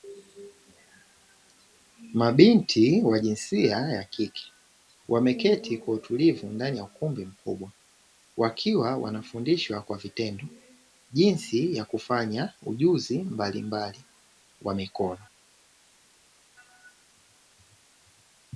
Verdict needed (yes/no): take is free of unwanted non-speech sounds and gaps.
yes